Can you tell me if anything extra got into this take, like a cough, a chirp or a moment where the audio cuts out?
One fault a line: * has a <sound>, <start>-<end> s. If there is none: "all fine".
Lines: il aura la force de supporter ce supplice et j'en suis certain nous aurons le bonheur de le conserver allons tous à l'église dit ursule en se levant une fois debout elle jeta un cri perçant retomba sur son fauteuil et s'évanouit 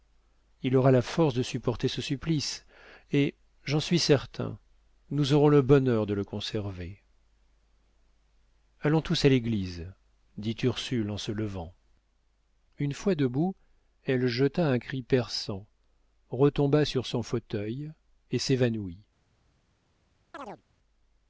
* has a chirp, 20.3-20.6 s